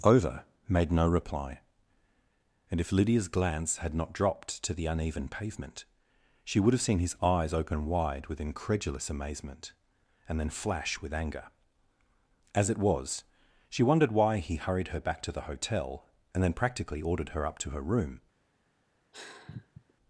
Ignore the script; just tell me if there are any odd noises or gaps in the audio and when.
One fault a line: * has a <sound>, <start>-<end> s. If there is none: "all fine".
* has a sigh, 19.1-19.9 s